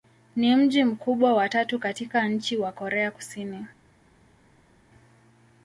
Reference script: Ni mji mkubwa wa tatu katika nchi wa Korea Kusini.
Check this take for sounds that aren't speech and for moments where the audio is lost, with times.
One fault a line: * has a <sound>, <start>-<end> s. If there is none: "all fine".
all fine